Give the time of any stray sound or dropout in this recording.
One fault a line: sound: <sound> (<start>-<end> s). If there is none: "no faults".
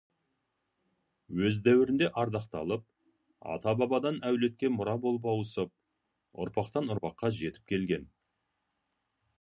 no faults